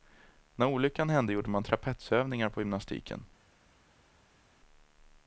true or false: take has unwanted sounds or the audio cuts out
false